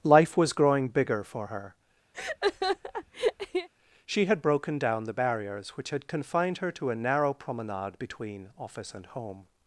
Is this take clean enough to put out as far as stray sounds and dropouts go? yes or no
no